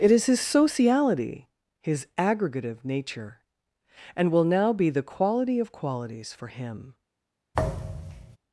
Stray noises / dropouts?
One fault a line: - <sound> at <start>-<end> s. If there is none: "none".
- thud at 7.5-8.4 s